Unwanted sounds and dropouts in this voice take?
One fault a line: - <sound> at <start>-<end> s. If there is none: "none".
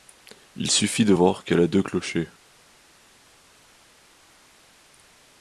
none